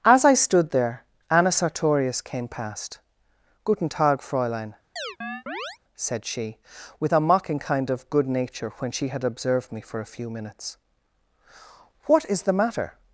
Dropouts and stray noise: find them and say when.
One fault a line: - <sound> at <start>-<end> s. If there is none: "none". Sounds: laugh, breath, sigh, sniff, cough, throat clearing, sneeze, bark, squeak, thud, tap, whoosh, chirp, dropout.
- chirp at 5.0-5.8 s